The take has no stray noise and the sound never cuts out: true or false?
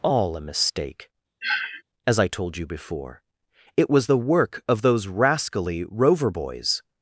false